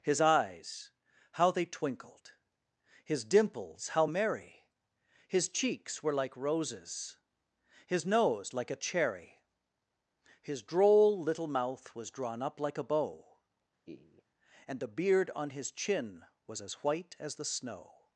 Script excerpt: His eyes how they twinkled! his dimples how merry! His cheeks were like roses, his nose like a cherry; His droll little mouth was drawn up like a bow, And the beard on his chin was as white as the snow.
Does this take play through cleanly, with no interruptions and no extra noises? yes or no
no